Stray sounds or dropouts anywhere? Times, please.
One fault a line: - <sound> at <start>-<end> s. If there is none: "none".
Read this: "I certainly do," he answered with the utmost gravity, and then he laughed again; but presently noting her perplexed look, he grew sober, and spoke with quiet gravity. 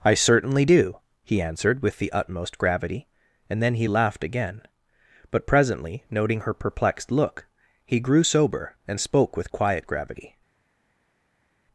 none